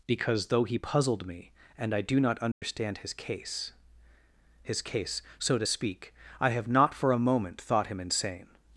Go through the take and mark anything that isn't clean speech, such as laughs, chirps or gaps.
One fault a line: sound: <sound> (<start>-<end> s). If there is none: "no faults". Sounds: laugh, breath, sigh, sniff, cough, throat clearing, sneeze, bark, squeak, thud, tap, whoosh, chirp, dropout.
sound: dropout (2.5-2.6 s)